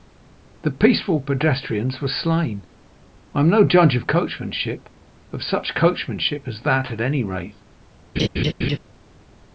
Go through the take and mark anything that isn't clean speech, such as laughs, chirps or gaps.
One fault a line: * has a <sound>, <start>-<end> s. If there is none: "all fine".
* has a laugh, 8.2-8.8 s